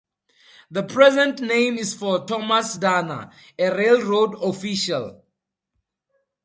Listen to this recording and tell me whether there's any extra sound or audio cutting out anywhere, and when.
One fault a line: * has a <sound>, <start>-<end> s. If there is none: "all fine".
all fine